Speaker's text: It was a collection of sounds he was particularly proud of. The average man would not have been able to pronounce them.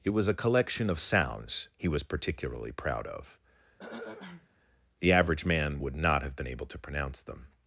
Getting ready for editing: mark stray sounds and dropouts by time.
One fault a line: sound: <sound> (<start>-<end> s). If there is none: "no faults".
sound: throat clearing (3.8-4.5 s)